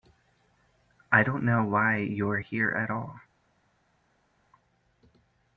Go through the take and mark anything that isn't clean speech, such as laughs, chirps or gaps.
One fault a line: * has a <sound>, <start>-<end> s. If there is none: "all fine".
all fine